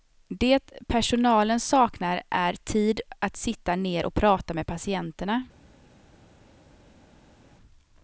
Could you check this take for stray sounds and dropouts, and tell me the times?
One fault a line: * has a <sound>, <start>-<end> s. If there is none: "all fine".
all fine